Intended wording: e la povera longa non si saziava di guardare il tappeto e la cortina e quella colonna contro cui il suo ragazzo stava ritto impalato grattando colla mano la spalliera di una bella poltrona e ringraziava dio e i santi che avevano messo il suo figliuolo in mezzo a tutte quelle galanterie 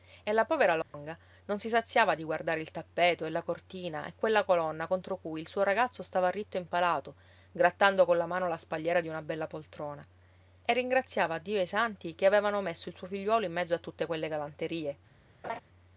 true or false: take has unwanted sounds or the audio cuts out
true